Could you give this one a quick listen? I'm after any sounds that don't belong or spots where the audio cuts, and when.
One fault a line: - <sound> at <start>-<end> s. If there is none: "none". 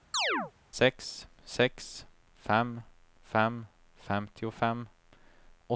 - chirp at 0.1-0.5 s